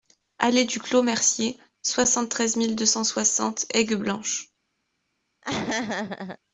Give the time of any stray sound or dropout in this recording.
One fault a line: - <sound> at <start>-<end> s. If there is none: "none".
- laugh at 5.4-6.4 s